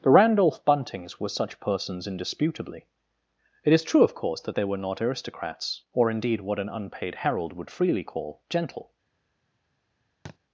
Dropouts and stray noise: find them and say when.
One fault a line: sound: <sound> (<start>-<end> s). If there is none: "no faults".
sound: thud (10.3-10.4 s)